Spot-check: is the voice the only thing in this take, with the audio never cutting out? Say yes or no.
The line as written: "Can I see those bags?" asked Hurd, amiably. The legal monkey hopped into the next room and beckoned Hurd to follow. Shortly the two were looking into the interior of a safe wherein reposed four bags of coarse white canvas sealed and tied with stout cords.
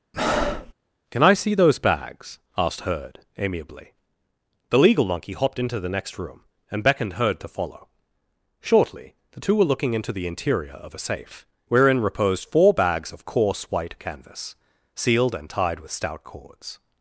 no